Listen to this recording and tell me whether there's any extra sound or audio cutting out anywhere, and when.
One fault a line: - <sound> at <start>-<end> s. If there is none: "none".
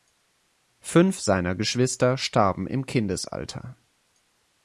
none